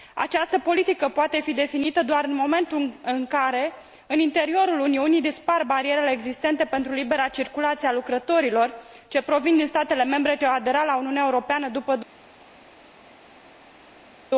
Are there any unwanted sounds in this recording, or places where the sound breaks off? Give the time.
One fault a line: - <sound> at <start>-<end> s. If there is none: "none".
none